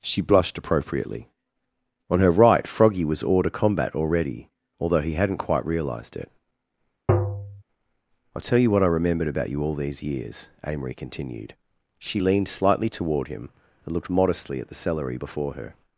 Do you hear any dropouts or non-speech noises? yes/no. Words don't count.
yes